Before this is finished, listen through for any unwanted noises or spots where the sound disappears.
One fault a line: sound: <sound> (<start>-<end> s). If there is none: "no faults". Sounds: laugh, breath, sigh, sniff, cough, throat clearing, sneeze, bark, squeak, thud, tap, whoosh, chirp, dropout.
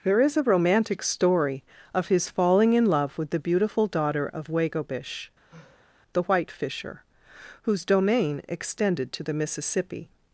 sound: sigh (5.5-6.0 s)